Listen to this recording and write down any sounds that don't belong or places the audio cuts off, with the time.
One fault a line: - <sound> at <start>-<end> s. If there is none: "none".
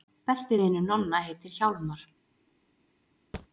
- thud at 3.3-3.5 s